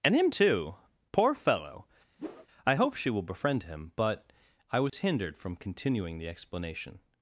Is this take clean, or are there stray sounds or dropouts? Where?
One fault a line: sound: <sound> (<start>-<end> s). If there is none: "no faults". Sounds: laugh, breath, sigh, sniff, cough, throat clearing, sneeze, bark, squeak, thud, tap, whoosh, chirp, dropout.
sound: whoosh (2.2-2.5 s)
sound: dropout (4.9-4.9 s)